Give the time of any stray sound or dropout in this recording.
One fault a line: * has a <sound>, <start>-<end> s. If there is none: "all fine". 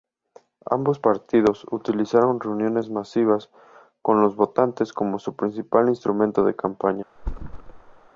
* has a thud, 7.2-8.1 s